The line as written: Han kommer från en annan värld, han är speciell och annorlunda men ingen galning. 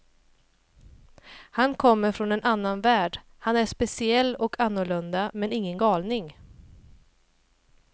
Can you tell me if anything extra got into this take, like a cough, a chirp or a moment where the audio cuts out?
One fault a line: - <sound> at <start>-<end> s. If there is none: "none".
none